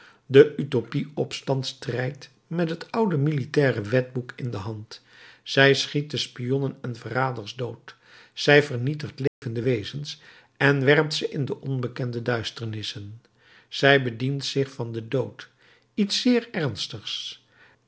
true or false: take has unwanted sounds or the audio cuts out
true